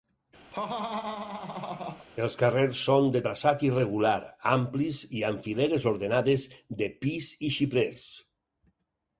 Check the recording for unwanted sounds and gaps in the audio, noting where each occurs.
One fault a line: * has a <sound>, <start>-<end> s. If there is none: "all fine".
* has a laugh, 0.5-2.1 s